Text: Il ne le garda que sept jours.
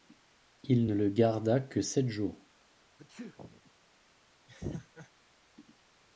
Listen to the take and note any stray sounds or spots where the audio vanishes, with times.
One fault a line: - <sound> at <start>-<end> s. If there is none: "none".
- sneeze at 3.0-3.7 s
- laugh at 4.5-5.1 s